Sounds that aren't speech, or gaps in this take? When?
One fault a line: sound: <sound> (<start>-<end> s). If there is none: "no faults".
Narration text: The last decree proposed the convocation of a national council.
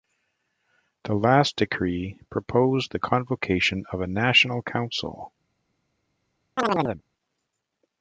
sound: chirp (6.6-7.0 s)